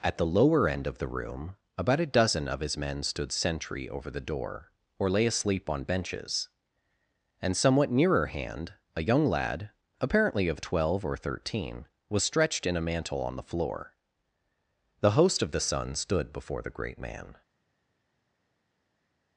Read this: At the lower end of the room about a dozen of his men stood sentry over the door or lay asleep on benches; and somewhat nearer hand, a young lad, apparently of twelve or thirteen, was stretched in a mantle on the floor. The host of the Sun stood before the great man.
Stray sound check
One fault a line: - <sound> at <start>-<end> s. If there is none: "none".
none